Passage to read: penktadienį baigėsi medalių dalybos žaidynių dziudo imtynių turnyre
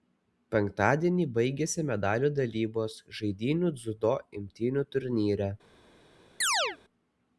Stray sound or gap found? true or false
true